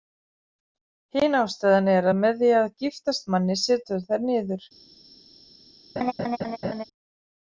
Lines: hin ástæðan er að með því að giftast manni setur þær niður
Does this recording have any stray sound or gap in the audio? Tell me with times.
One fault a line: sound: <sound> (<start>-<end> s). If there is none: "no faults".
sound: laugh (6.0-6.8 s)